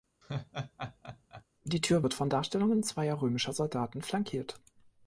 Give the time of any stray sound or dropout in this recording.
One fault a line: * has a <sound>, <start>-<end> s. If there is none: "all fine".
* has a laugh, 0.2-1.4 s